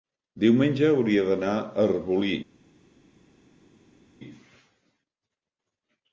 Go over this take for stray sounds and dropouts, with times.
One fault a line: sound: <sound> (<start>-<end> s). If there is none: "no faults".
no faults